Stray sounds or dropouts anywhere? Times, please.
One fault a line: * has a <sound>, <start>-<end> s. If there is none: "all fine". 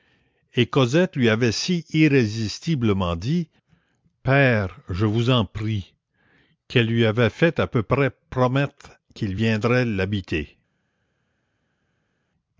all fine